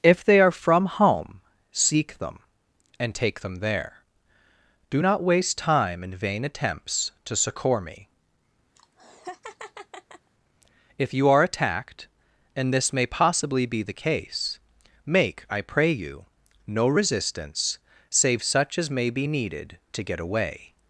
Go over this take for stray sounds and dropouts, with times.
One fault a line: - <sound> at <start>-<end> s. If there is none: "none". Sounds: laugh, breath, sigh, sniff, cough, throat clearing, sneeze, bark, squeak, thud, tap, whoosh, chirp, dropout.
- laugh at 8.8-10.3 s